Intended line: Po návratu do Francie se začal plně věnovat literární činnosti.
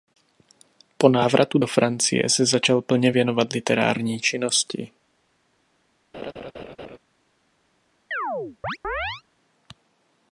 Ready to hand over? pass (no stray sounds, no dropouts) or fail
fail